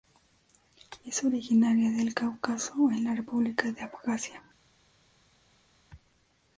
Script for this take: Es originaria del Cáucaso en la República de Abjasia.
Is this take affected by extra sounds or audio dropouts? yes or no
no